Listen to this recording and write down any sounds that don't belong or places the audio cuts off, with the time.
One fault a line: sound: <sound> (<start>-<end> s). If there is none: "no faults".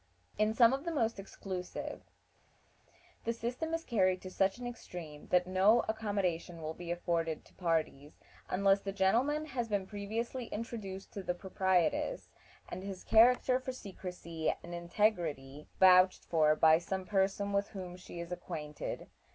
no faults